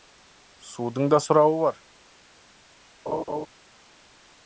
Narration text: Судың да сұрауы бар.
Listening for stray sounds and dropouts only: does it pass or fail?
fail